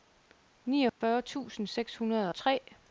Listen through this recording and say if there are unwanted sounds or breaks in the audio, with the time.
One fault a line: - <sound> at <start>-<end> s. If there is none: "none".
- dropout at 0.9-1.0 s